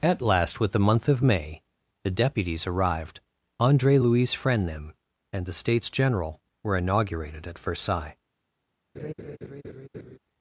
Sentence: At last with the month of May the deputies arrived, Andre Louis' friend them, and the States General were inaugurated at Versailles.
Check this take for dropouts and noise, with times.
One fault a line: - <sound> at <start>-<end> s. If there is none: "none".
- laugh at 8.9-10.2 s